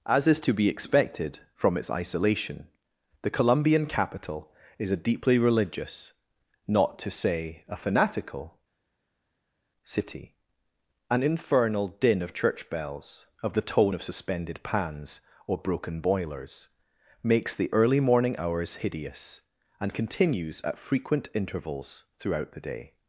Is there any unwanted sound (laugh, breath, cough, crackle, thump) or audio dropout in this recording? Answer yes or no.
no